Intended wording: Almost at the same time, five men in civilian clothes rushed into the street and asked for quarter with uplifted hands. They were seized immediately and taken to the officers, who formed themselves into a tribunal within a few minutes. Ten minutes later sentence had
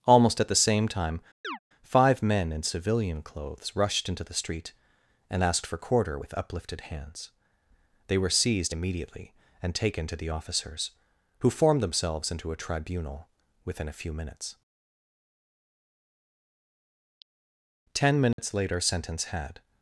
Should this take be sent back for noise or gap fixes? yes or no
yes